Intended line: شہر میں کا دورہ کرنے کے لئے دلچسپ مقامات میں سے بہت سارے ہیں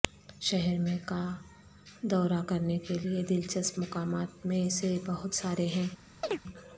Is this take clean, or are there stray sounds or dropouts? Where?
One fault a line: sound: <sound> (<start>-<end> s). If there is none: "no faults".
sound: chirp (6.2-6.4 s)